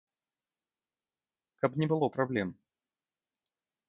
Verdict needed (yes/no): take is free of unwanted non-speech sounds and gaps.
yes